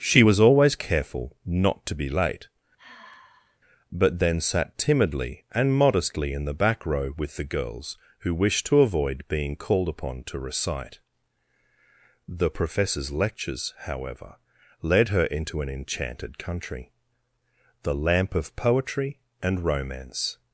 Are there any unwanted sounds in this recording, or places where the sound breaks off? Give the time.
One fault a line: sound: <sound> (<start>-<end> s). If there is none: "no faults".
sound: sigh (2.8-3.6 s)